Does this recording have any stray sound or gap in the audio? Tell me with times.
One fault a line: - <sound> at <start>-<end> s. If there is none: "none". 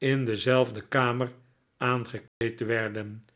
- dropout at 2.3-2.4 s